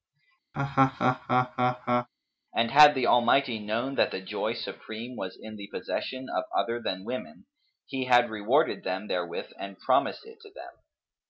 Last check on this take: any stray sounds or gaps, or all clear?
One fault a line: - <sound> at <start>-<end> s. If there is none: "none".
- laugh at 0.5-2.1 s